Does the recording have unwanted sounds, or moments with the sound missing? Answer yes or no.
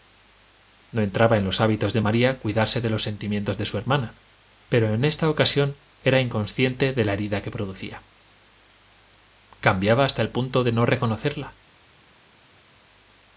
no